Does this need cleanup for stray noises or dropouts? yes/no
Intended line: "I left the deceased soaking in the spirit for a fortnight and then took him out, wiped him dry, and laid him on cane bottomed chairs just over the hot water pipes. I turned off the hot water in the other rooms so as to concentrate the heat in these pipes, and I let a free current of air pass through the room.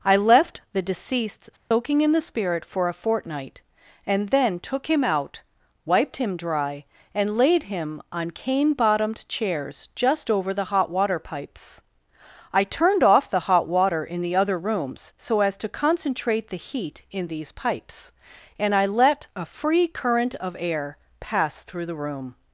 yes